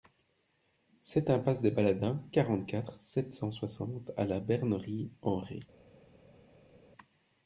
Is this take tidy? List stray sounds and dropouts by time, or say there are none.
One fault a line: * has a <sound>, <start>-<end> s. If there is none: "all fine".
all fine